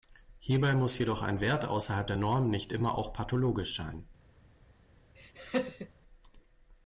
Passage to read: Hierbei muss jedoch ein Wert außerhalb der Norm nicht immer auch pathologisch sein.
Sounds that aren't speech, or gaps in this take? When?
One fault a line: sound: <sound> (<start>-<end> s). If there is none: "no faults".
sound: laugh (5.2-5.9 s)